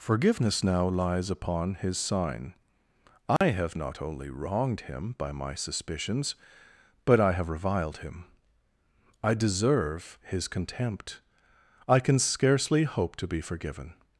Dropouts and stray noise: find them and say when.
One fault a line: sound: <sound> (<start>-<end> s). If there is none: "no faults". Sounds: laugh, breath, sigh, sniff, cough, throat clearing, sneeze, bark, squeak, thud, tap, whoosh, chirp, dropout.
sound: dropout (3.4-3.4 s)